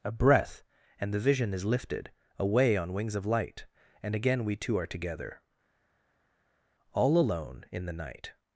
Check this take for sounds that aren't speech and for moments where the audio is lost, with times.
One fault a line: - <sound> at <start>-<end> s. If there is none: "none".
none